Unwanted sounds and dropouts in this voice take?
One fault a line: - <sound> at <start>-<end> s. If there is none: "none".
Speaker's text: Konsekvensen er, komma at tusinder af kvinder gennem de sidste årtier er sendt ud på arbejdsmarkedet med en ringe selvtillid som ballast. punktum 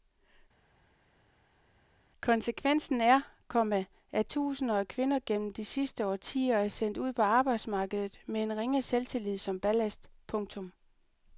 none